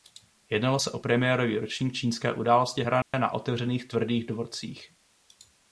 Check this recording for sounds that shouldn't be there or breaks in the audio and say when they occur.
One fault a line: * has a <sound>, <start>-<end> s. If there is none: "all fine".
* has a dropout, 3.0-3.1 s